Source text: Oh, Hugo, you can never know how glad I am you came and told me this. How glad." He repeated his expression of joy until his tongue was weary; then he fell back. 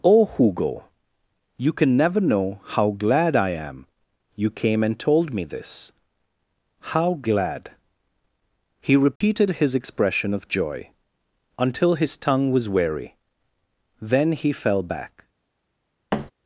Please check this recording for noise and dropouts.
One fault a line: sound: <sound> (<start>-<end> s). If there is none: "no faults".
sound: dropout (9.2-9.2 s)
sound: thud (16.1-16.3 s)